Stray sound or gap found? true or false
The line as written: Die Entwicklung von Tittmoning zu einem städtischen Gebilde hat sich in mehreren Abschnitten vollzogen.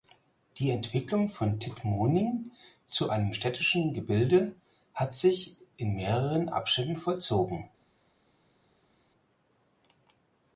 false